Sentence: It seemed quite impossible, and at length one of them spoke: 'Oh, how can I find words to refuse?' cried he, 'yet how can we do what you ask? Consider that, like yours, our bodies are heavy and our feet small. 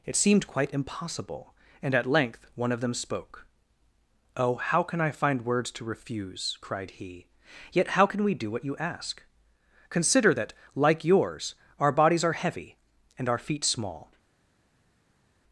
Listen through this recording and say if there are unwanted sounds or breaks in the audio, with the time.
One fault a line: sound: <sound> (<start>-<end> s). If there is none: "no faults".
no faults